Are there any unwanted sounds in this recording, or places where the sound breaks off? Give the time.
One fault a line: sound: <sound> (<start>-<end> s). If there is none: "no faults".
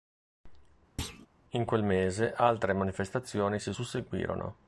sound: thud (1.0-1.3 s)